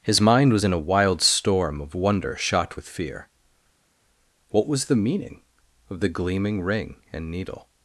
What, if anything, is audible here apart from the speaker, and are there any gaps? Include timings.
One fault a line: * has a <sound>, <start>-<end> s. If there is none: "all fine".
all fine